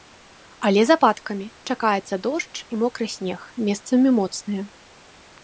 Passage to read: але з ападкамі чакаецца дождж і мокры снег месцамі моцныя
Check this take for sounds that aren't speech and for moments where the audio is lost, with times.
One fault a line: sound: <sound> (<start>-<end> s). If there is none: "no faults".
no faults